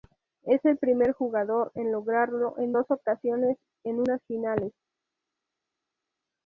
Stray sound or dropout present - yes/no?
no